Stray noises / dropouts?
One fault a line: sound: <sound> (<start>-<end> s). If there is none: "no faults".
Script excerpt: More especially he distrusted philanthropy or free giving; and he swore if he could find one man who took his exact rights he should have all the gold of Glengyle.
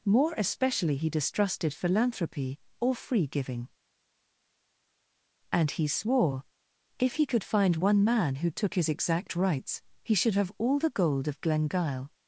no faults